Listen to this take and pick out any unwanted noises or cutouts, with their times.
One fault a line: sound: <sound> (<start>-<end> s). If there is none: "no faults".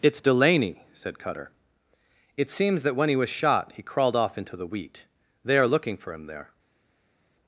no faults